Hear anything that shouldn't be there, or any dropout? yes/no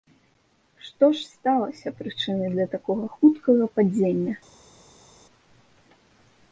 no